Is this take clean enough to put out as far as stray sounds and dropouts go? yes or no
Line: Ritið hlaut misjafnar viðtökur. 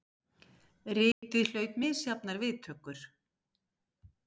no